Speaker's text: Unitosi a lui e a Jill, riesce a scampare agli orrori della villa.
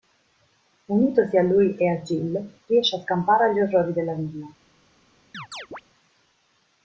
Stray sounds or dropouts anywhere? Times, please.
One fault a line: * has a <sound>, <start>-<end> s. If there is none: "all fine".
* has a chirp, 5.3-5.8 s